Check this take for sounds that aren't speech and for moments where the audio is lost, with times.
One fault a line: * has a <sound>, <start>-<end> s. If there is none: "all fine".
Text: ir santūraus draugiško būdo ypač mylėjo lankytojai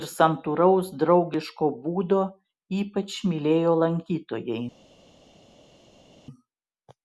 all fine